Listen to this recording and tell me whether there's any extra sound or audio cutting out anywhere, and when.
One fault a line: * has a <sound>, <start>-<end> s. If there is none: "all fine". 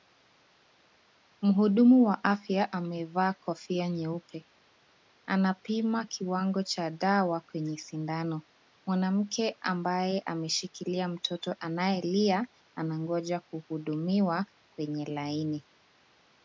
all fine